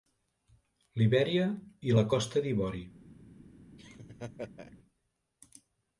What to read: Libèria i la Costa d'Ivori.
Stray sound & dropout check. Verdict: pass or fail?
fail